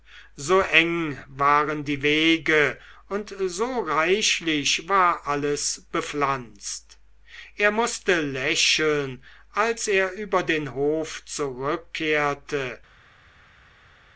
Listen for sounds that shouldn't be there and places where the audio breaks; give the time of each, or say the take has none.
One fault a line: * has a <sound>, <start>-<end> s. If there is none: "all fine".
all fine